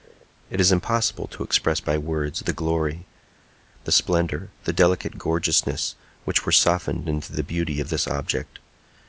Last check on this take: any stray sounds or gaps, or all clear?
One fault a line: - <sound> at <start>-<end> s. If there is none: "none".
none